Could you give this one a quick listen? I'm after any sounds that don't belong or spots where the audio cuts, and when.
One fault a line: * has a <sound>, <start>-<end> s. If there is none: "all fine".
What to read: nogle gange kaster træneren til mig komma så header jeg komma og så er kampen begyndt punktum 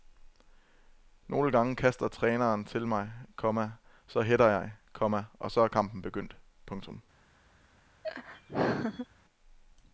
* has a laugh, 8.0-9.1 s